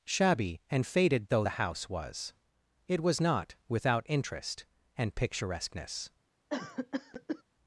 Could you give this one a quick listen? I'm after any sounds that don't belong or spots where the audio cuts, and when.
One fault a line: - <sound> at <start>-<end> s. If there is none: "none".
- cough at 6.5-7.4 s